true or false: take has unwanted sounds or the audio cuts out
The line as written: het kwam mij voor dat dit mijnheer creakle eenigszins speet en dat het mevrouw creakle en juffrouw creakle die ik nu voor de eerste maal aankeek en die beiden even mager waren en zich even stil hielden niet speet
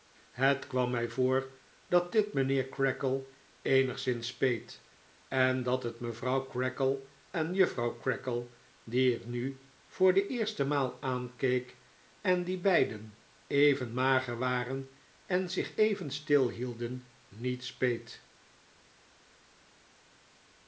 false